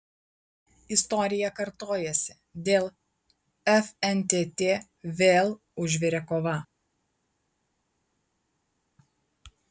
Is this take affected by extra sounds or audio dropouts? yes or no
no